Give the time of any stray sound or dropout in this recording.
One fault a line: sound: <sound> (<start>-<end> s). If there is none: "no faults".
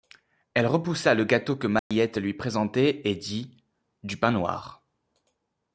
sound: dropout (1.8-1.9 s)